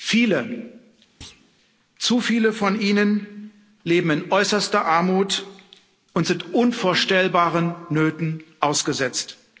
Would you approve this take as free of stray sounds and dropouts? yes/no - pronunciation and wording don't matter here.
no